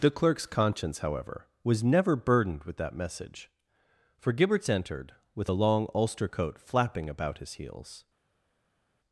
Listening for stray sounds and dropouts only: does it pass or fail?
pass